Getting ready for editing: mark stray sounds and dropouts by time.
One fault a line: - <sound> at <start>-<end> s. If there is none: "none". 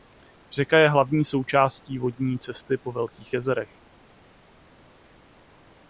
none